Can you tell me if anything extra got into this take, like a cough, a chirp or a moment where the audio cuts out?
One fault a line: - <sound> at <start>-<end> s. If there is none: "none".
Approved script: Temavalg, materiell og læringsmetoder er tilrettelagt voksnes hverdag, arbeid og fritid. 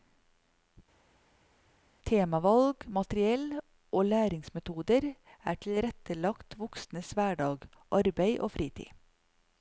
none